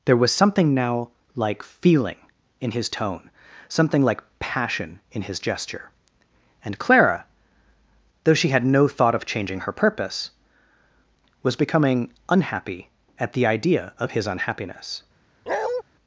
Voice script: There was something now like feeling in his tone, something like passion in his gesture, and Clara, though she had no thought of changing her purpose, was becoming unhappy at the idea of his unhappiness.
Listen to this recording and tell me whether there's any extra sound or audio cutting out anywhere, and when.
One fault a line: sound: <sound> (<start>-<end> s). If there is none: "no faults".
sound: bark (15.5-15.8 s)